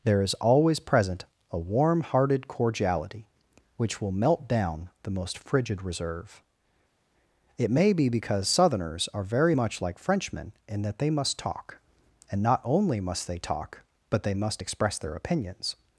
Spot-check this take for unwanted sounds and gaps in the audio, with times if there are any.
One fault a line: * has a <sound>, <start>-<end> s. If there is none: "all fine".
all fine